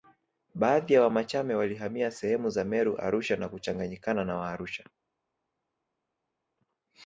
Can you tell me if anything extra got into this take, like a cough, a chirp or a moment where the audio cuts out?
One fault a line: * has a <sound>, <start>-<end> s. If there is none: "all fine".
all fine